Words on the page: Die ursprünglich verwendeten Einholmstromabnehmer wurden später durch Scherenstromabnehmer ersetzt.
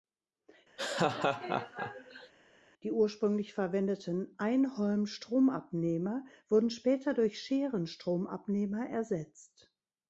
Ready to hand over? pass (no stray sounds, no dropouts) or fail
fail